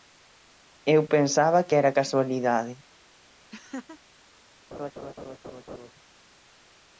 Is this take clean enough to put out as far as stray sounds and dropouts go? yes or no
no